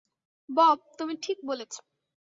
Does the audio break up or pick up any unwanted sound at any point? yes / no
no